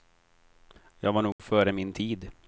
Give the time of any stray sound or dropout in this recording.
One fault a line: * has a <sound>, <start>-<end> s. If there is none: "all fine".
* has a dropout, 1.3-1.4 s